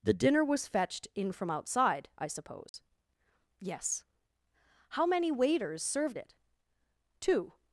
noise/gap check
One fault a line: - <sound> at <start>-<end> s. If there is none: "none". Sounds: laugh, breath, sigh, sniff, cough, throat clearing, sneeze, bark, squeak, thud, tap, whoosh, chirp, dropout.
- dropout at 2.7-2.7 s